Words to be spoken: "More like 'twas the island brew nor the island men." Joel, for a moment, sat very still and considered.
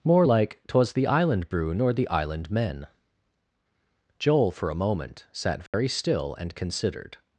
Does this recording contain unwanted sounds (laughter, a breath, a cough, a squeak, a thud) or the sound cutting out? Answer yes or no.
yes